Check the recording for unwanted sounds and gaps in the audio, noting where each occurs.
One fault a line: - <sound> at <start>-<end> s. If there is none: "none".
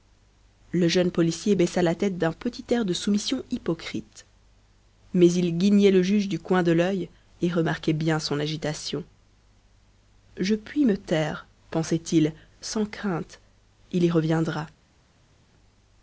none